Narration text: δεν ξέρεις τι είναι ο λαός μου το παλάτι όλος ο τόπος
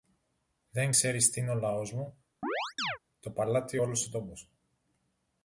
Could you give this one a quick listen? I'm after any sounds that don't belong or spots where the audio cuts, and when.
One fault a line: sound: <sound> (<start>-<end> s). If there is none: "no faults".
sound: chirp (2.4-3.0 s)